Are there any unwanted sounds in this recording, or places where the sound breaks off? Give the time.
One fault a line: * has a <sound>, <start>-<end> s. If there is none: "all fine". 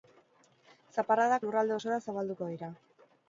all fine